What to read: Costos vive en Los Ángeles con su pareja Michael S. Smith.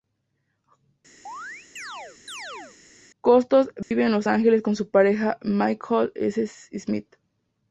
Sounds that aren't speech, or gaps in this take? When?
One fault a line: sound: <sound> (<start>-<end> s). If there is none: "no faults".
sound: chirp (1.3-2.8 s)
sound: dropout (3.8-3.9 s)